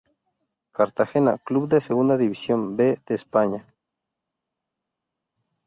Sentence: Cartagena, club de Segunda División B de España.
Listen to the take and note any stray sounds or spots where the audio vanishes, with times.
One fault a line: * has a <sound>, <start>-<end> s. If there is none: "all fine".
all fine